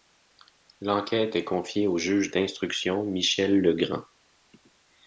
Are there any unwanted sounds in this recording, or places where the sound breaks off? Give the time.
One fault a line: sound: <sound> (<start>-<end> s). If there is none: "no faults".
no faults